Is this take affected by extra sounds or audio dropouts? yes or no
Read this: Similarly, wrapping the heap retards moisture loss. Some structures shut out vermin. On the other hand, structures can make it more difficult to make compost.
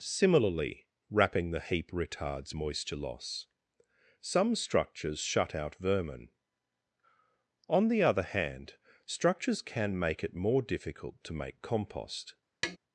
yes